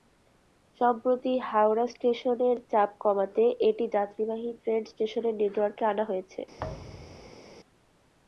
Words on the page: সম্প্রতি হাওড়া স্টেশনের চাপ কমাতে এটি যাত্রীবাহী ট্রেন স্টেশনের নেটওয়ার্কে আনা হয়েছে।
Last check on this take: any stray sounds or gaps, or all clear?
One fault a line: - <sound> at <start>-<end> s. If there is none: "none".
- thud at 6.6-7.4 s